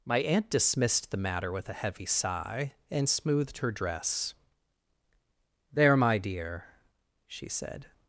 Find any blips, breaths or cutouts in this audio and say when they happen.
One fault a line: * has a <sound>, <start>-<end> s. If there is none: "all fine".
all fine